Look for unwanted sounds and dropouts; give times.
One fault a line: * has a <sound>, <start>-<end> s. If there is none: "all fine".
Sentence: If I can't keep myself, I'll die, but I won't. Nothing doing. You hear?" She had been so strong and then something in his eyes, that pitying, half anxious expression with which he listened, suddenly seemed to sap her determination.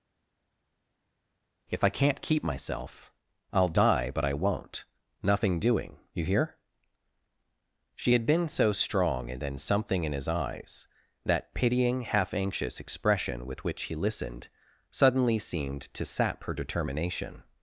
all fine